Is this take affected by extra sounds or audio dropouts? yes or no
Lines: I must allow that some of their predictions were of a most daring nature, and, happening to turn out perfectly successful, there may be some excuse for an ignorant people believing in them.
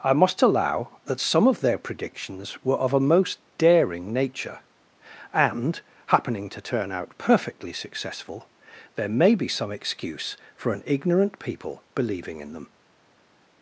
no